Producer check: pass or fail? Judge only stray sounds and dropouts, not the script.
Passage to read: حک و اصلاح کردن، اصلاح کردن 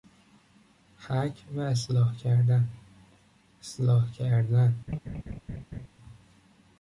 fail